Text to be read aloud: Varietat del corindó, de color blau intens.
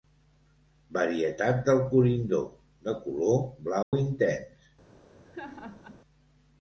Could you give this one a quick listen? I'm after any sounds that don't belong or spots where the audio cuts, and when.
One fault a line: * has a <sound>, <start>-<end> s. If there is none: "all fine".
* has a dropout, 3.8-3.9 s
* has a laugh, 5.2-6.0 s